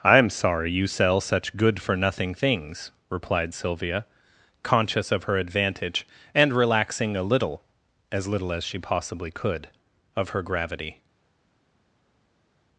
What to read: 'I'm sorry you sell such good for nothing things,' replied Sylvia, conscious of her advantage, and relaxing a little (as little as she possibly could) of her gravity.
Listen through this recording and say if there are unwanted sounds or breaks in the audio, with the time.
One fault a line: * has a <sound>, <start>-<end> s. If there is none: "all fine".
all fine